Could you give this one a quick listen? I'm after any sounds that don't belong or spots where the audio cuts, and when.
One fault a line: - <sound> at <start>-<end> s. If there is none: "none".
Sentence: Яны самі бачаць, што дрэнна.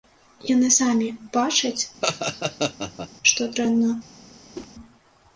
- laugh at 2.0-3.1 s
- whoosh at 4.5-4.7 s